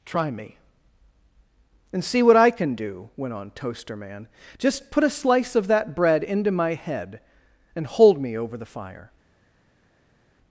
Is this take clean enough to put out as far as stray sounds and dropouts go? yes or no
yes